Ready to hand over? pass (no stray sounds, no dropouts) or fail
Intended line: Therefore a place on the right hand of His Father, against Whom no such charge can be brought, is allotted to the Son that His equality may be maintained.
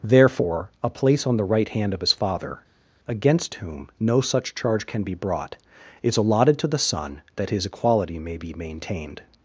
pass